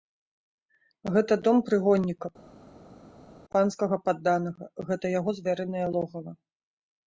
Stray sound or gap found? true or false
false